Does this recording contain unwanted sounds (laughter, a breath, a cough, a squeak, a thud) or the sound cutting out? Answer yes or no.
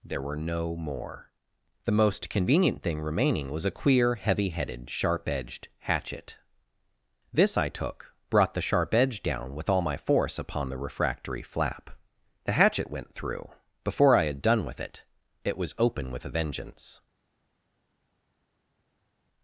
no